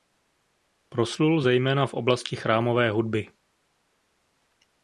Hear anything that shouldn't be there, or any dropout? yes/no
no